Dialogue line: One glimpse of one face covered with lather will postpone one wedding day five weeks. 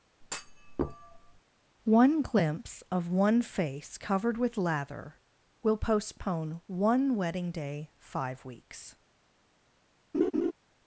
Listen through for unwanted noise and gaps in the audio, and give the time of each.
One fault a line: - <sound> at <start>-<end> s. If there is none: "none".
- thud at 0.2-1.4 s
- laugh at 10.1-10.5 s